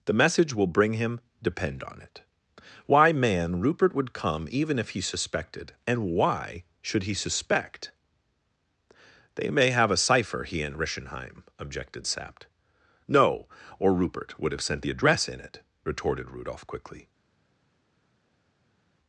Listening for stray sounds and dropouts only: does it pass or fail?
pass